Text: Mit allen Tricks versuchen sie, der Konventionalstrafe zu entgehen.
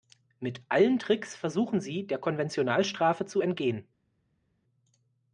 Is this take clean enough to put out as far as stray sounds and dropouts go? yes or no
yes